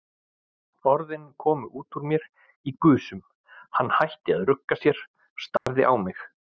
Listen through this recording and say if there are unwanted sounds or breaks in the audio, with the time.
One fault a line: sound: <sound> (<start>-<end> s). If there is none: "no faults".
sound: dropout (5.6-5.7 s)